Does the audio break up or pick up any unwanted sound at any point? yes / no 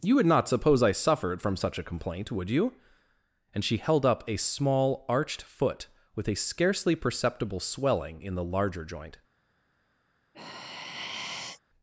yes